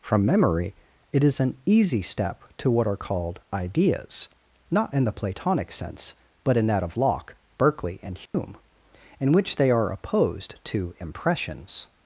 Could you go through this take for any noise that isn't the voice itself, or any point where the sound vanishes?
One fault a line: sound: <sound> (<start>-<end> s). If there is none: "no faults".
sound: dropout (8.3-8.3 s)